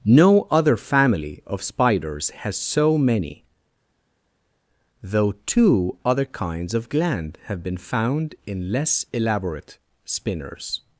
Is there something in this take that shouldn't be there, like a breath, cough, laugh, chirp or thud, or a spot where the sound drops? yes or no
no